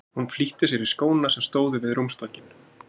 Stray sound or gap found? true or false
false